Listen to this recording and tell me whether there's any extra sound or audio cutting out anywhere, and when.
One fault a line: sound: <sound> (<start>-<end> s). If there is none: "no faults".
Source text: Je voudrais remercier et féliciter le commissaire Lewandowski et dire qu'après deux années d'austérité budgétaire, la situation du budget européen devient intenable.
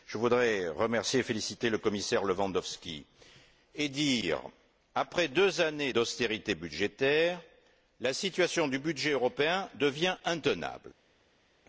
no faults